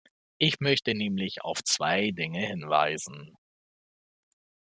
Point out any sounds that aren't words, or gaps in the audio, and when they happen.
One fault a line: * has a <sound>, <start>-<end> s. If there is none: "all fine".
all fine